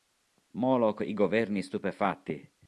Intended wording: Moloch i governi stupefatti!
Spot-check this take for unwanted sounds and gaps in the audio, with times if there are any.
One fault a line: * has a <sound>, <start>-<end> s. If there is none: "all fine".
all fine